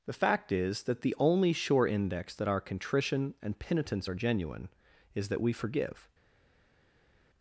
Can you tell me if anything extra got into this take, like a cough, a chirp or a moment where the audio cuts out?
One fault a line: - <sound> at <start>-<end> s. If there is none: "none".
none